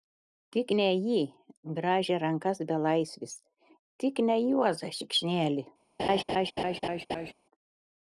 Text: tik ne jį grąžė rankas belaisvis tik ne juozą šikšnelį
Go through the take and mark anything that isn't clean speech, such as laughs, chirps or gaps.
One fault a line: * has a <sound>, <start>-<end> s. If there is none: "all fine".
* has a laugh, 6.0-7.3 s